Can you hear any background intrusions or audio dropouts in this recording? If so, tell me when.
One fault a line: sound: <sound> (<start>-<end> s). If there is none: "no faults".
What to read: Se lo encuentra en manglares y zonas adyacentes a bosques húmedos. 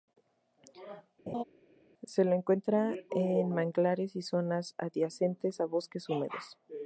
sound: laugh (1.3-1.4 s)